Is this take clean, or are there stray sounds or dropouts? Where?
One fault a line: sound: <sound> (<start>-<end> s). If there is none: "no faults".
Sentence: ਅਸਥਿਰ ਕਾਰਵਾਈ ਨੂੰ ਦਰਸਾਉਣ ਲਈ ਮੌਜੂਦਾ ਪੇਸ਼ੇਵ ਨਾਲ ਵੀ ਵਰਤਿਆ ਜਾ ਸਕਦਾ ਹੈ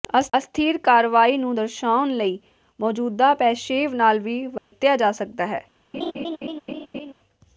sound: dropout (4.6-4.7 s)
sound: laugh (5.9-7.1 s)